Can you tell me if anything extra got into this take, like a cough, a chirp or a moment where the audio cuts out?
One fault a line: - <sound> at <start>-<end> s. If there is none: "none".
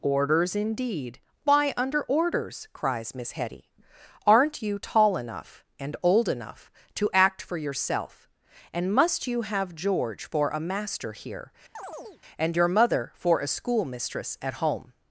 - chirp at 11.7-12.2 s